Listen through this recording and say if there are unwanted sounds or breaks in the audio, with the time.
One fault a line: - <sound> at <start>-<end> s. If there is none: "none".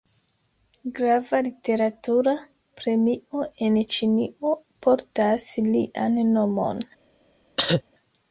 - cough at 7.6-7.8 s